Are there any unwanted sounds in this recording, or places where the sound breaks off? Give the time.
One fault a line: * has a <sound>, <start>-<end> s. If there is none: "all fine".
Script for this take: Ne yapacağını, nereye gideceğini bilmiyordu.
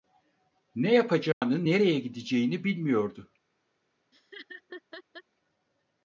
* has a dropout, 1.3-1.4 s
* has a laugh, 4.1-5.2 s